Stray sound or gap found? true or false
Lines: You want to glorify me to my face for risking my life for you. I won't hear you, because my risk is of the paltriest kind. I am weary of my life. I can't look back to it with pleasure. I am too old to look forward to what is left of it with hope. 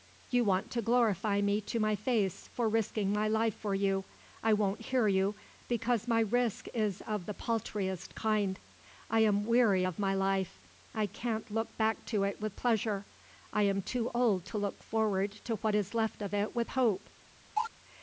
true